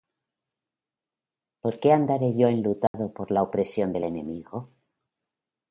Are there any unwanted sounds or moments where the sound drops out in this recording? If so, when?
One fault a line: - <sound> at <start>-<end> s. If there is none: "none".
- dropout at 2.9-2.9 s